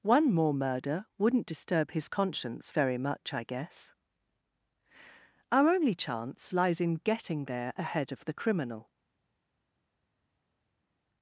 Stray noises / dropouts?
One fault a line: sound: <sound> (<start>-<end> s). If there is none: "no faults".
no faults